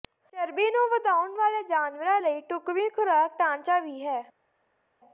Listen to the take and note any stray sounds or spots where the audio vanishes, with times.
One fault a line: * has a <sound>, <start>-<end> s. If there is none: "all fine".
all fine